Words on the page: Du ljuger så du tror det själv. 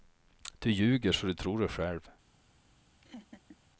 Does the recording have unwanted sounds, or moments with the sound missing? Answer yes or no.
yes